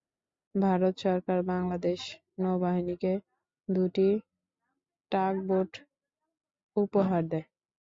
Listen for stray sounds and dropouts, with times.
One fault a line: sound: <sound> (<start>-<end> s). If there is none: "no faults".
no faults